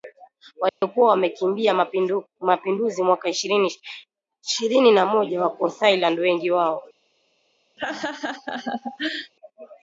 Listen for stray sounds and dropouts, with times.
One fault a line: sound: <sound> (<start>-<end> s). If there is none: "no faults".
sound: dropout (0.7-0.8 s)
sound: laugh (7.8-9.3 s)